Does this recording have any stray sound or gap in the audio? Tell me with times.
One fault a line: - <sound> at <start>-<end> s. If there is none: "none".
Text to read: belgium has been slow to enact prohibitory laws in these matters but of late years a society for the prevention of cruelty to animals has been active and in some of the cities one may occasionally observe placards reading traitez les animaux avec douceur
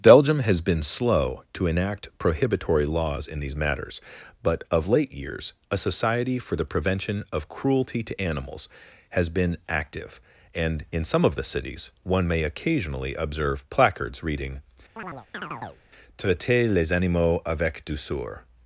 - chirp at 15.0-15.8 s